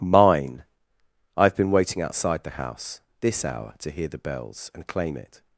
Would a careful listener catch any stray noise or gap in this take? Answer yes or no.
no